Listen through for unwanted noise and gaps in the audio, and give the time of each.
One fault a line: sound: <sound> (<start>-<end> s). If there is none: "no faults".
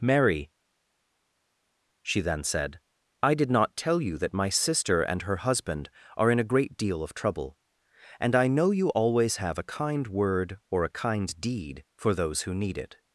no faults